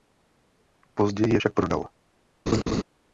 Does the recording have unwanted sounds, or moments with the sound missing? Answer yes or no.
yes